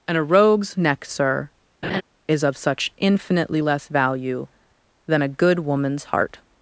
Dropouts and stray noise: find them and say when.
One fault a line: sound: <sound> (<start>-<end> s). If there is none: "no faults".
sound: laugh (1.8-2.0 s)